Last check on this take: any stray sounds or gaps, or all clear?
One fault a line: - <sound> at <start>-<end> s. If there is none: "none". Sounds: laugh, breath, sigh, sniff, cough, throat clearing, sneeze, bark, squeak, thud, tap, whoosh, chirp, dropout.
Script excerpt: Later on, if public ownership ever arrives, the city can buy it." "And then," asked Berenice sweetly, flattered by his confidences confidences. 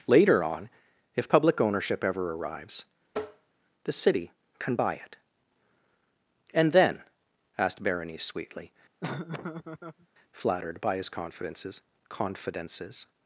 - tap at 3.1-3.5 s
- laugh at 9.0-10.1 s